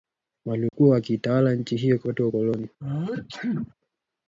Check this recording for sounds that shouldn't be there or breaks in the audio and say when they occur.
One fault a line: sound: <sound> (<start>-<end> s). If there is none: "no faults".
sound: dropout (0.7-0.7 s)
sound: sneeze (2.8-3.7 s)